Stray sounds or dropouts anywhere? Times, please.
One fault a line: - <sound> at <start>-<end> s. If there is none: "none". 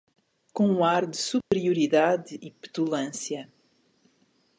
- dropout at 1.4-1.5 s